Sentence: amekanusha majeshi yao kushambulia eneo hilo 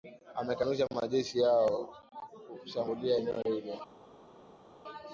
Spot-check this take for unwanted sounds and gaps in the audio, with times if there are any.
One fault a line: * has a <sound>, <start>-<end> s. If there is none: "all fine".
all fine